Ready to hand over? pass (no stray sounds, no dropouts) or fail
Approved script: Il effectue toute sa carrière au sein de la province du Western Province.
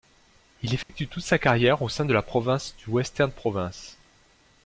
fail